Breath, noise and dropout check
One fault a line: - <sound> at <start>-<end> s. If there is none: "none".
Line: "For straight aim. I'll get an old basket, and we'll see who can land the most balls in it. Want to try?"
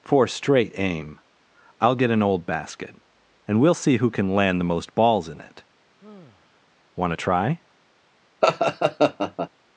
- sigh at 6.0-6.7 s
- laugh at 8.4-9.5 s